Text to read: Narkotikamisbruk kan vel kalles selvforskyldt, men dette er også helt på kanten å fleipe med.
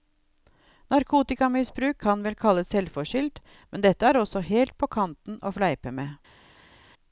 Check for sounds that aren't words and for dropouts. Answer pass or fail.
pass